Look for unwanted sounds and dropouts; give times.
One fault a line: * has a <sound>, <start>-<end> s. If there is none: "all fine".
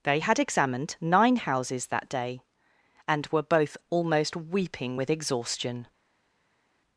all fine